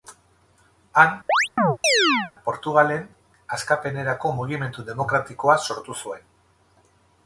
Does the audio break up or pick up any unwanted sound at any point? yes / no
yes